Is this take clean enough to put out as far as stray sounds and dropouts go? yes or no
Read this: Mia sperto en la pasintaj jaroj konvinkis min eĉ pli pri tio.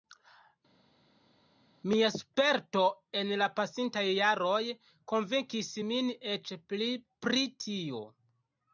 yes